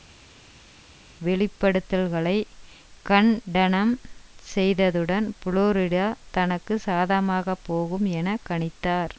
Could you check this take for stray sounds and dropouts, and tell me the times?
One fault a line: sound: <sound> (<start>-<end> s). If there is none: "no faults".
no faults